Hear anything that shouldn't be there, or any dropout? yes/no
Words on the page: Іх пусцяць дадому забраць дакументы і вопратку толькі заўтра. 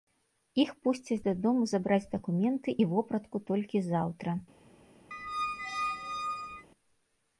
yes